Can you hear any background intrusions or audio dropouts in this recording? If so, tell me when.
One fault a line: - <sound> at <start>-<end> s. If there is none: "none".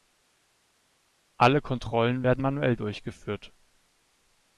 none